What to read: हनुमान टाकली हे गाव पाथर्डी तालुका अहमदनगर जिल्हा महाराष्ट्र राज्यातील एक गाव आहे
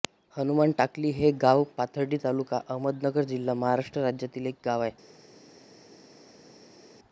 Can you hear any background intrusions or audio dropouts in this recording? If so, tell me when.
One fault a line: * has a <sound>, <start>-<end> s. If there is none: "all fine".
all fine